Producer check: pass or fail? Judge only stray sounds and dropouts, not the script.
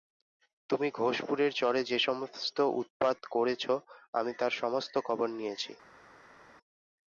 pass